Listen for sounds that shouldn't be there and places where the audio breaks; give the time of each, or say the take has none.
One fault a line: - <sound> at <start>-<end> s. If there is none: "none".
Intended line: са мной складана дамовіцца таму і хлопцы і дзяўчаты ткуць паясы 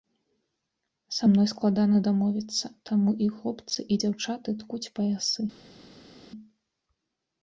none